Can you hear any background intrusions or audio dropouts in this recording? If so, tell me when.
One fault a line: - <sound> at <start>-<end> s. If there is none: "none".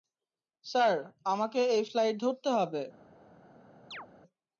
- chirp at 3.9-4.1 s